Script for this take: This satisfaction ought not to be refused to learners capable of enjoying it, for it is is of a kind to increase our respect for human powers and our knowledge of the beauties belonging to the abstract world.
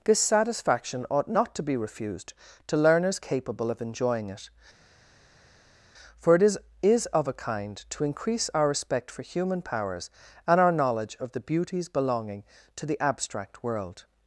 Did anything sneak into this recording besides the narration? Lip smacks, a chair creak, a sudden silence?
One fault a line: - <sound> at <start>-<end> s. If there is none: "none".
none